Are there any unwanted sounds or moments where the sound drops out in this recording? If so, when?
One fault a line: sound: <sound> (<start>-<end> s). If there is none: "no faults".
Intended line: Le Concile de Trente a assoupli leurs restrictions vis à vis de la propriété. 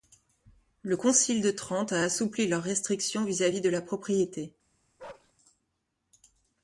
sound: bark (5.0-5.3 s)